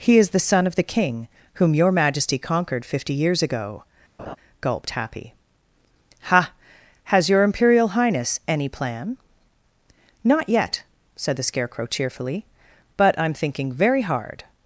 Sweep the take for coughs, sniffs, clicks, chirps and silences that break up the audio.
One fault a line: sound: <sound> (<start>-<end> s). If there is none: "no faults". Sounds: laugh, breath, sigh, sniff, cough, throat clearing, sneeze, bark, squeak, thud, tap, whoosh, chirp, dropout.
sound: laugh (4.2-4.4 s)